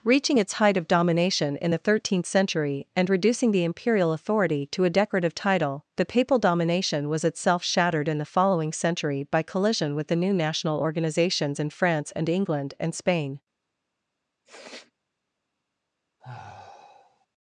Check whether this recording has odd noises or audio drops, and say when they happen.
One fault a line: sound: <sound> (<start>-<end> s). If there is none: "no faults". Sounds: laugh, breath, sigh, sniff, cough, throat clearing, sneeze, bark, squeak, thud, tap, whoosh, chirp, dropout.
sound: sniff (14.4-14.9 s)
sound: sigh (16.2-17.3 s)